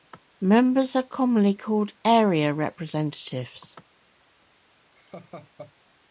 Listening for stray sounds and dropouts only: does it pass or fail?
fail